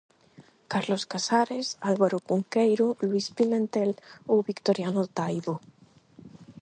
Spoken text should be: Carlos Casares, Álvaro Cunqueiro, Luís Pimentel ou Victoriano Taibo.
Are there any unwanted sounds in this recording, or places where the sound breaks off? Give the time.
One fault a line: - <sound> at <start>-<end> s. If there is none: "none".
none